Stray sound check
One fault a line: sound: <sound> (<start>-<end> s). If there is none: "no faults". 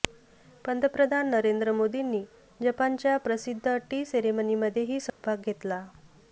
sound: dropout (5.1-5.2 s)